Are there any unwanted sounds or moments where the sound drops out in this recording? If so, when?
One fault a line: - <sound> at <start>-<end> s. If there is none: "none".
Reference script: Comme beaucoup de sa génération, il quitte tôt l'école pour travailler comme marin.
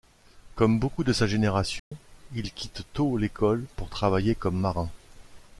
- dropout at 1.8-1.9 s